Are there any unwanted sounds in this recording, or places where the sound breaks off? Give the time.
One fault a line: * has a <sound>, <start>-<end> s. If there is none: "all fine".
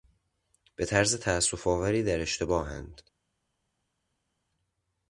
all fine